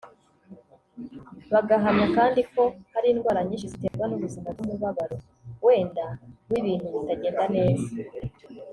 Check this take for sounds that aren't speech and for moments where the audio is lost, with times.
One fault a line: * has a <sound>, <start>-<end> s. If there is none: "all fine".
* has a dropout, 3.9-3.9 s